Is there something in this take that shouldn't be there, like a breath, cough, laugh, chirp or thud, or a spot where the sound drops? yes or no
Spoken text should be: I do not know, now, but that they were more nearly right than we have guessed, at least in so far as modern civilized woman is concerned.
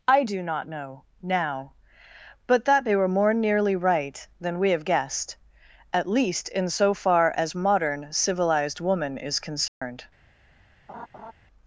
yes